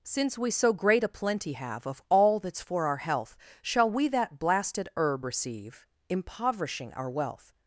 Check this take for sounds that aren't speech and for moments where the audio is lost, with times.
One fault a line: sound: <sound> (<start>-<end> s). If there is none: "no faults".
no faults